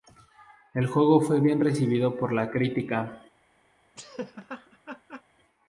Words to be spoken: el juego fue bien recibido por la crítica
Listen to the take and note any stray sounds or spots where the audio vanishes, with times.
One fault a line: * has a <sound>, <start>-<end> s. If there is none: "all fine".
* has a laugh, 4.0-5.2 s